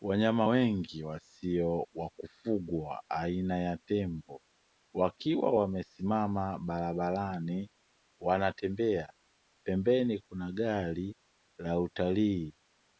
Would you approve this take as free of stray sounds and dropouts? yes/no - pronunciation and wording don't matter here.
yes